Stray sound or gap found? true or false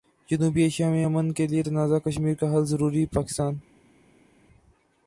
false